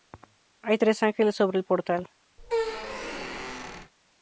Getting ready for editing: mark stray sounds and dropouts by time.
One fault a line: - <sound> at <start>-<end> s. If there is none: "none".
- squeak at 2.4-3.9 s